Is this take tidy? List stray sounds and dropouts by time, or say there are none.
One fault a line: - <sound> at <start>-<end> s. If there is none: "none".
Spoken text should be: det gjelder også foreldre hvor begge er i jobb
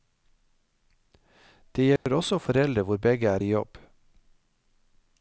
- dropout at 2.0-2.1 s